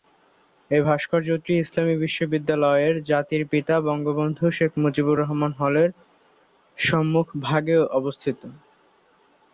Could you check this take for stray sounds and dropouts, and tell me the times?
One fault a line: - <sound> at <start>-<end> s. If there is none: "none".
none